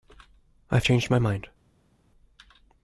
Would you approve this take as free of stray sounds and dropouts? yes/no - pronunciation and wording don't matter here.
yes